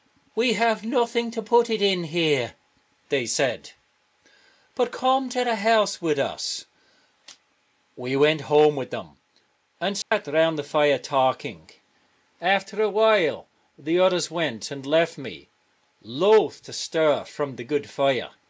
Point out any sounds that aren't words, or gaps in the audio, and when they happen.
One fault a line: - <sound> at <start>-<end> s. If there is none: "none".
- dropout at 10.0-10.1 s